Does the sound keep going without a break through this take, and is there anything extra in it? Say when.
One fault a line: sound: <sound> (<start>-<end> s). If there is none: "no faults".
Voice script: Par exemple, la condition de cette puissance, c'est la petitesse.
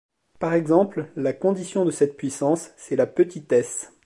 no faults